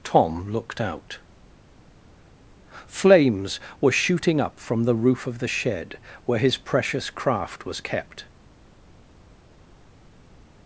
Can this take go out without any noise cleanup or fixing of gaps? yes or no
yes